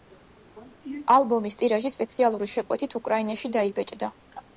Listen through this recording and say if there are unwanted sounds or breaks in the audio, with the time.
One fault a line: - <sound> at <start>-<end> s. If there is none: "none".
none